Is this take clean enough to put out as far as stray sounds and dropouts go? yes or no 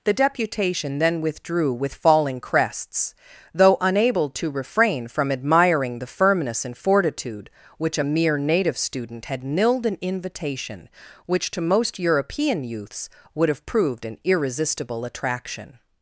yes